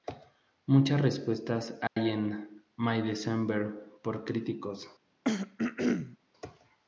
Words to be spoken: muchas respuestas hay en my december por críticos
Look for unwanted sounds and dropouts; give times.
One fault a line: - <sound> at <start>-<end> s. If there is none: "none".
- dropout at 1.9-2.0 s
- throat clearing at 5.2-6.2 s